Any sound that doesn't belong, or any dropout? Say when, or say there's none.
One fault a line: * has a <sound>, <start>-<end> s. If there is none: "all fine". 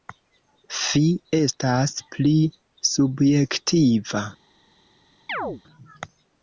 * has a chirp, 5.3-5.6 s